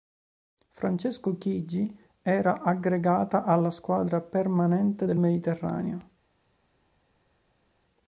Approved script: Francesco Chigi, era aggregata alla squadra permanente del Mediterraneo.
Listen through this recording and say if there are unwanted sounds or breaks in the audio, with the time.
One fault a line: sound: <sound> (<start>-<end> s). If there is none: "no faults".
no faults